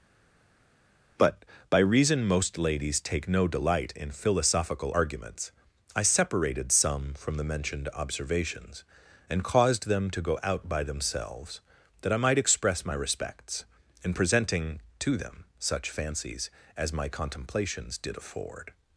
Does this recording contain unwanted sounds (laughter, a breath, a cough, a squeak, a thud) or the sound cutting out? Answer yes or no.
no